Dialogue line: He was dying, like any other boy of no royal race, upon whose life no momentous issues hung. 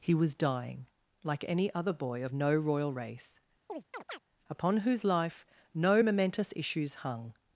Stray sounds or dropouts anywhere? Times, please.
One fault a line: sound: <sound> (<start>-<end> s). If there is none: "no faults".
sound: chirp (3.7-4.2 s)